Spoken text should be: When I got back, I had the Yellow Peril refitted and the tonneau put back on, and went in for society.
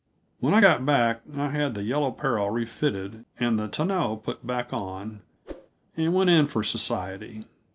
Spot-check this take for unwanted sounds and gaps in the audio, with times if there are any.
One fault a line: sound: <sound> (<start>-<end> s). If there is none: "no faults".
sound: whoosh (5.5-5.7 s)